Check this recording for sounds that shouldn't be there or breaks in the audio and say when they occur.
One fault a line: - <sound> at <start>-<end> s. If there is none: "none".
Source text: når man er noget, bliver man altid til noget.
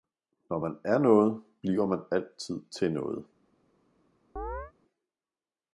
- chirp at 4.4-4.7 s